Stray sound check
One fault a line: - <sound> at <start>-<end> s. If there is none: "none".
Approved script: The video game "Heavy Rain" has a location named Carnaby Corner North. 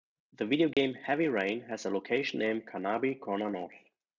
- dropout at 0.7-0.8 s